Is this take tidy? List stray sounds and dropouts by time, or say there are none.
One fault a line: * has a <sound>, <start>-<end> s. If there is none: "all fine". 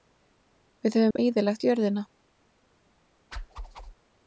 * has a dropout, 1.1-1.2 s
* has a whoosh, 3.3-3.9 s